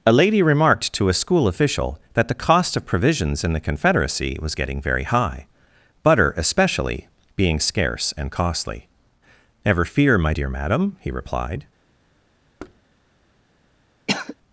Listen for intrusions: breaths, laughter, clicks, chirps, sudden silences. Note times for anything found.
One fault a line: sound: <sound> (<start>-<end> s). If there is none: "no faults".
sound: thud (12.6-12.8 s)
sound: cough (14.1-14.4 s)